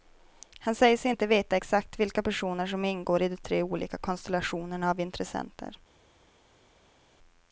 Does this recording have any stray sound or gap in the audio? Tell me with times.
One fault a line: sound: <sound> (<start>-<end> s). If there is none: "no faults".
no faults